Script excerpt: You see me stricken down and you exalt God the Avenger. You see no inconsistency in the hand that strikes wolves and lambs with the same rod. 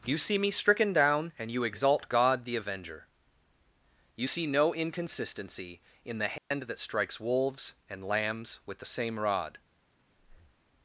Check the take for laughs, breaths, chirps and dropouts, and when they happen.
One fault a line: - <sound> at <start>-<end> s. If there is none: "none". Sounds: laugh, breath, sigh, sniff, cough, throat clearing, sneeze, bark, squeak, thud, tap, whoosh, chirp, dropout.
- dropout at 6.4-6.5 s
- breath at 10.2-10.6 s